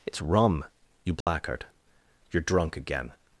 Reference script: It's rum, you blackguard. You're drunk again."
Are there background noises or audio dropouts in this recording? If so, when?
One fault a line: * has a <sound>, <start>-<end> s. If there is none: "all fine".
* has a dropout, 1.2-1.3 s